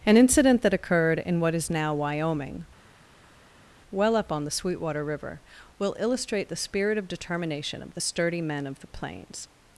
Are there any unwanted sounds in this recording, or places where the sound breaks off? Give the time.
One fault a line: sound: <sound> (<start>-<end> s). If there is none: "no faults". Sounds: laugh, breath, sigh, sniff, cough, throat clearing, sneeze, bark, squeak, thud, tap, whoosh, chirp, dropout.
no faults